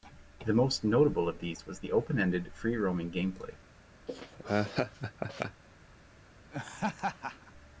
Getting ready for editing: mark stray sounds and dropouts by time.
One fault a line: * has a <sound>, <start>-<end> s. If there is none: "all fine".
* has a laugh, 4.1-5.6 s
* has a laugh, 6.5-7.5 s